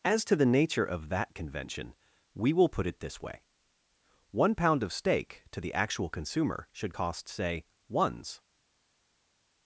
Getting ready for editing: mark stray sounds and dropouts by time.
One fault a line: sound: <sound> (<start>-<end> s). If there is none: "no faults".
no faults